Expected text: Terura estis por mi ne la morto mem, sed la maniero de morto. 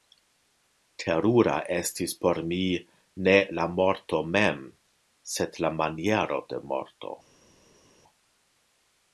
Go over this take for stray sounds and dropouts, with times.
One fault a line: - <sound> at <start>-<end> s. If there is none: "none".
none